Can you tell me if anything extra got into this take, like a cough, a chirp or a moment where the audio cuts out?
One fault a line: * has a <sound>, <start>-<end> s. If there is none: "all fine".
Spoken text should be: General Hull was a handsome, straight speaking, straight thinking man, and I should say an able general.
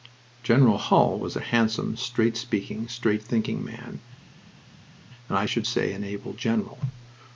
all fine